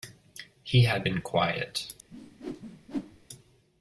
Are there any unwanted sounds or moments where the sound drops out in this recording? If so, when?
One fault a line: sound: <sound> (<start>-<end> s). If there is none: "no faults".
sound: whoosh (2.1-3.3 s)